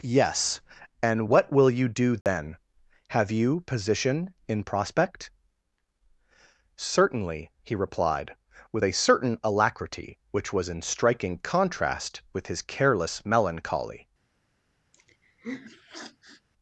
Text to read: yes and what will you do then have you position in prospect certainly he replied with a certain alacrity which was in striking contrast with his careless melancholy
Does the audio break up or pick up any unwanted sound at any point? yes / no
yes